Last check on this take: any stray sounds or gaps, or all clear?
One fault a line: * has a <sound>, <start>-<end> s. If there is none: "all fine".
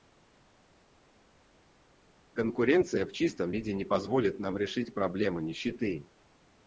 all fine